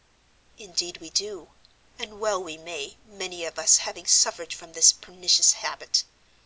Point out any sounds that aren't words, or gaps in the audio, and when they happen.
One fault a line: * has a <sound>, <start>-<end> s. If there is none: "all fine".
all fine